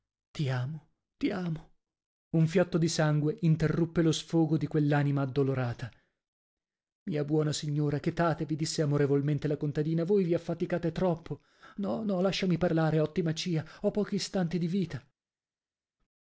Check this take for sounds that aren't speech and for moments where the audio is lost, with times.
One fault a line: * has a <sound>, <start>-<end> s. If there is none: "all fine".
all fine